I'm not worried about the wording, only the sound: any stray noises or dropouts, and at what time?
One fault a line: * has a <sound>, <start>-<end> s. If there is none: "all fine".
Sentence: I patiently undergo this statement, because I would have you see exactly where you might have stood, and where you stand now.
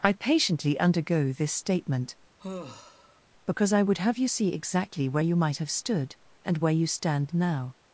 * has a sigh, 2.4-3.2 s